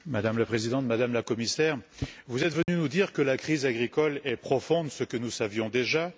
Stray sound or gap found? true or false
true